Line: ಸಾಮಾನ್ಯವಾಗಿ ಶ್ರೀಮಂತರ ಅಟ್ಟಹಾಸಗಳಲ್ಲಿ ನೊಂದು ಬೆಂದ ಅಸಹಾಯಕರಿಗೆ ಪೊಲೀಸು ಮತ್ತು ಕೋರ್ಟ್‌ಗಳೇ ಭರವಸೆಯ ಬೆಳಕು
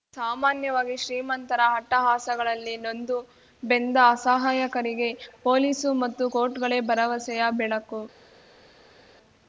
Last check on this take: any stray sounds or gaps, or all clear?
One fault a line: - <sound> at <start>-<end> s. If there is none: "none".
none